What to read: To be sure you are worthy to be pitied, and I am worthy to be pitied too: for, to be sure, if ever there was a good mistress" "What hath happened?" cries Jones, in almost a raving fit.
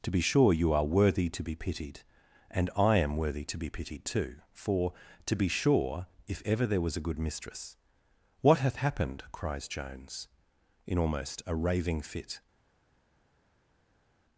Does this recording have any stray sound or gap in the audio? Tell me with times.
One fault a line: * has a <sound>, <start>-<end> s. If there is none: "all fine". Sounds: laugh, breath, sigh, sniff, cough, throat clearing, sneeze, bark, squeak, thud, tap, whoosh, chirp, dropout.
all fine